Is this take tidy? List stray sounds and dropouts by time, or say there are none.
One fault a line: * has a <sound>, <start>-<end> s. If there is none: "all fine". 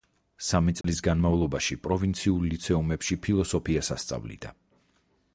* has a dropout, 0.8-0.8 s